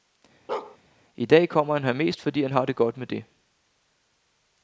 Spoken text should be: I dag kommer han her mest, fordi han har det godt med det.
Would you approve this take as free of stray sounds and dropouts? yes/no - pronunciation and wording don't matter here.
no